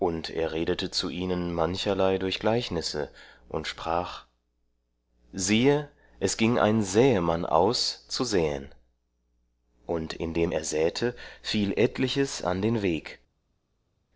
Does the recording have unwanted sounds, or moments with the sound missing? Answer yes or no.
no